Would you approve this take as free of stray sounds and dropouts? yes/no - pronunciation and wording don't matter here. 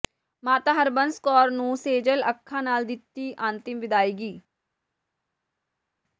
yes